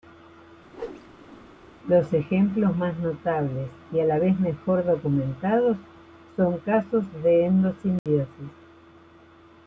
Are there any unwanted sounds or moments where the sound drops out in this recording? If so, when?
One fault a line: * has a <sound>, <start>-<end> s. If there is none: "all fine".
* has a whoosh, 0.7-1.5 s
* has a dropout, 8.0-8.1 s